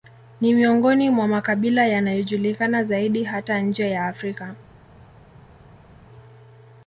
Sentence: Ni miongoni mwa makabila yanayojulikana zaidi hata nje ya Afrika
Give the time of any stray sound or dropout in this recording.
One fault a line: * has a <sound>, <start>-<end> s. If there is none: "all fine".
all fine